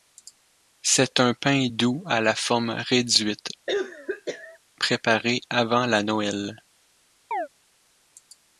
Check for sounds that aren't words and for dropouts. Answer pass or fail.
fail